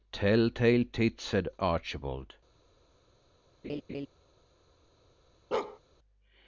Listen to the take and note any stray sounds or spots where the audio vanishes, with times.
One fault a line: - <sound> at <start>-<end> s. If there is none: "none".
- laugh at 3.6-4.1 s
- bark at 5.5-5.8 s